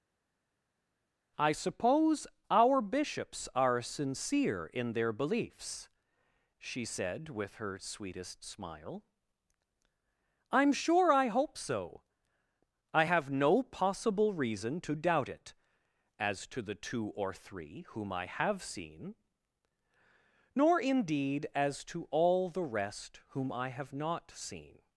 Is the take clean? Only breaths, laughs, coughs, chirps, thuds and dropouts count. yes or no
yes